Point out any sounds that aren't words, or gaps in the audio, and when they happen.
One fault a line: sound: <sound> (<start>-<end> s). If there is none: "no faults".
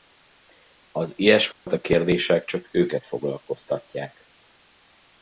sound: dropout (1.5-1.7 s)